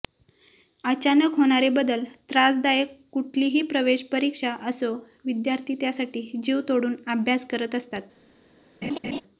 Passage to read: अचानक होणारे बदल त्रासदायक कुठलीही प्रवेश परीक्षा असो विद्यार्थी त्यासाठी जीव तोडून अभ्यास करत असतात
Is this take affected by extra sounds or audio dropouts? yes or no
yes